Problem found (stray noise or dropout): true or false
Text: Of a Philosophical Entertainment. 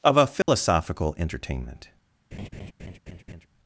true